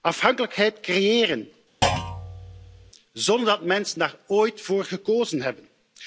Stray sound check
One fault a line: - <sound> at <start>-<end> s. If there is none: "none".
- thud at 1.8-2.9 s